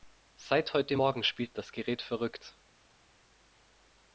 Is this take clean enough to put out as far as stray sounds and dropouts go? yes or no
yes